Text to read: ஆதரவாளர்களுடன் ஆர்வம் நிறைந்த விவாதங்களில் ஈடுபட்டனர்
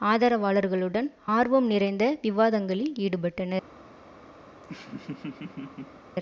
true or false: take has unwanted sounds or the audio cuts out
true